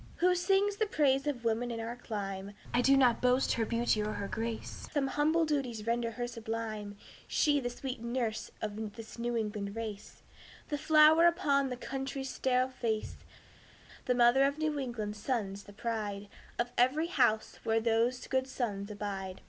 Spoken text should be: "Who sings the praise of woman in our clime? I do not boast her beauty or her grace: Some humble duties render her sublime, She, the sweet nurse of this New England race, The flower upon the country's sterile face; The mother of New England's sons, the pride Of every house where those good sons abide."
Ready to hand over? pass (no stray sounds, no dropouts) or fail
pass